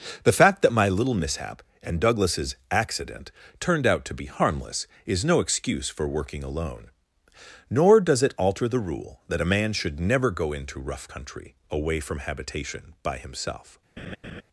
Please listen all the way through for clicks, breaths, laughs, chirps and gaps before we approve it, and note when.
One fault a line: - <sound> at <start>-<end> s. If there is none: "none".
- laugh at 14.0-14.4 s